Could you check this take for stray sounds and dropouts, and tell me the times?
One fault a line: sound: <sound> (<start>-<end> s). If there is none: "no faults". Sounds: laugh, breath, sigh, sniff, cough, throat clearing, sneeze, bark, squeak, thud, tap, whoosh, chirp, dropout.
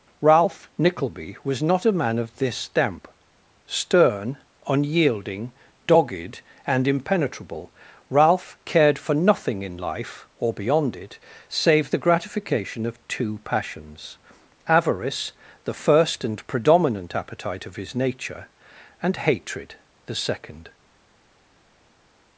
no faults